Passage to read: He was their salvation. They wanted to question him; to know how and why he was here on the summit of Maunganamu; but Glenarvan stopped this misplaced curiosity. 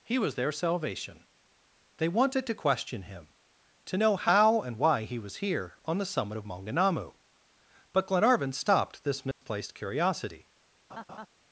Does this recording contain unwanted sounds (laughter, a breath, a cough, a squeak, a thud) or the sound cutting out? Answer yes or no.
yes